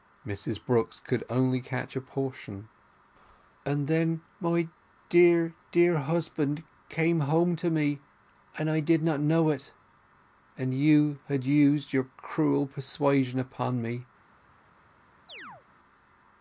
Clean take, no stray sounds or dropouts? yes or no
no